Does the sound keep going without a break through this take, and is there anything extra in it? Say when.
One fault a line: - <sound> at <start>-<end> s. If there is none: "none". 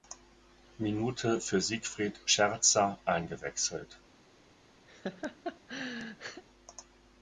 - laugh at 4.9-6.4 s